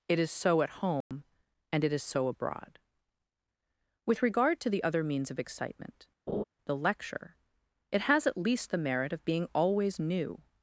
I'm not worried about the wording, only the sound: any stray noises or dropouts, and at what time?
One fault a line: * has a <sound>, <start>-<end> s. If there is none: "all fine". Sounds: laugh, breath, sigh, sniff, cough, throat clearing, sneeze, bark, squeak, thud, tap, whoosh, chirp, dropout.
* has a dropout, 1.0-1.1 s
* has a laugh, 6.3-6.4 s